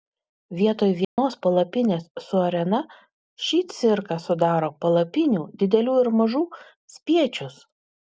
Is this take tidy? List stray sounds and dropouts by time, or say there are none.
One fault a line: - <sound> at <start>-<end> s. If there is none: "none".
- dropout at 1.0-1.2 s